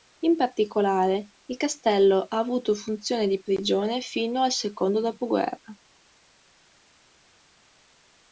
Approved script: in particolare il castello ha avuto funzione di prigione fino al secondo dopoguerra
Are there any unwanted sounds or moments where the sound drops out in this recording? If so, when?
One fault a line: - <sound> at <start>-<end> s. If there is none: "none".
none